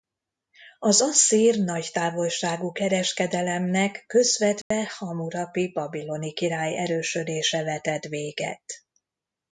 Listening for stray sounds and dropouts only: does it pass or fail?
fail